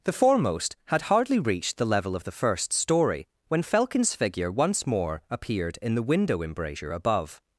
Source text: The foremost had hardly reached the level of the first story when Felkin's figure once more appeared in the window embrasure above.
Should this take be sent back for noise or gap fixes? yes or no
no